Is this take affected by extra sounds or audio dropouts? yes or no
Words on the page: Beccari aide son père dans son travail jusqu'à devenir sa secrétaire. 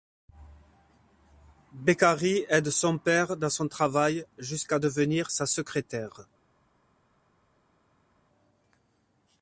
no